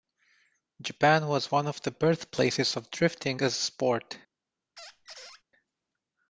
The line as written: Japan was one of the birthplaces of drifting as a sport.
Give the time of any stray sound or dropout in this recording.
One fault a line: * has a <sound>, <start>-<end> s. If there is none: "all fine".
* has a squeak, 4.8-5.4 s